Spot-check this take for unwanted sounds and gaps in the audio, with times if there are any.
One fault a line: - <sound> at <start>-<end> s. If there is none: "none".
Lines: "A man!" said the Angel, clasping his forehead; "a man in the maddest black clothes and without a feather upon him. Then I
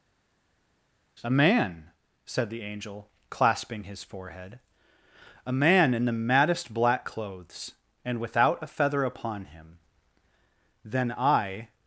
none